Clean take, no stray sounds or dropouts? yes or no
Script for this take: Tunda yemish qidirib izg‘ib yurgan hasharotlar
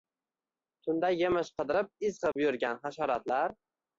no